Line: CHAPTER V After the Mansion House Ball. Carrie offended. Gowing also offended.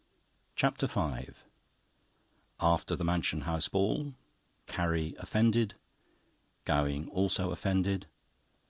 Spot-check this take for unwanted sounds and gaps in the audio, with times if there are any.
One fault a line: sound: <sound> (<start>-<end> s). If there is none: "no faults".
no faults